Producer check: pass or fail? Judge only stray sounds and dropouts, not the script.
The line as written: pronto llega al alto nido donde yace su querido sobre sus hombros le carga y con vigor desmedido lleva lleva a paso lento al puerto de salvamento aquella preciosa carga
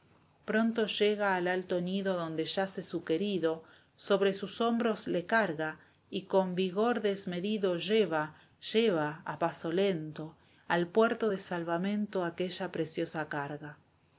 pass